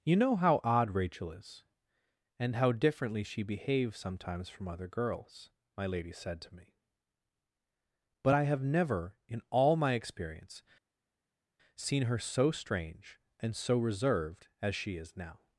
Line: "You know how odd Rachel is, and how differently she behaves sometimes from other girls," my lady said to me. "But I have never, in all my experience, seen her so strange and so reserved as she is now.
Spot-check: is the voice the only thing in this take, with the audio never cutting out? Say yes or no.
yes